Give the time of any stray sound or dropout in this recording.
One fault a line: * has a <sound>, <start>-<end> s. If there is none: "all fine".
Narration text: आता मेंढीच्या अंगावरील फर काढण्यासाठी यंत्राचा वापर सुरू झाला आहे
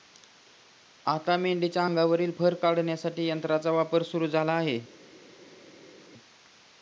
all fine